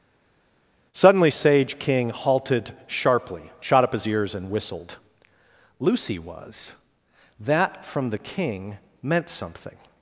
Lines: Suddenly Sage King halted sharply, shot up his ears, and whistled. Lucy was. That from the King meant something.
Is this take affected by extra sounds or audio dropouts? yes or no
no